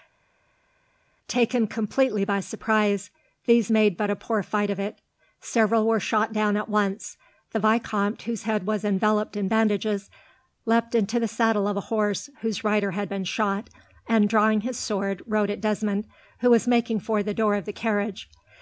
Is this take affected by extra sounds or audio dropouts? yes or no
no